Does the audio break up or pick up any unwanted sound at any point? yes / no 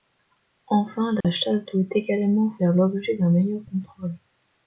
yes